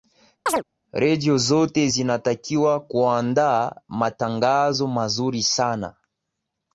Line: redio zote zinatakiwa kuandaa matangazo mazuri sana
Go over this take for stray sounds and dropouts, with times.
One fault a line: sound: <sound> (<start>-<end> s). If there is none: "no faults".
sound: chirp (0.5-0.6 s)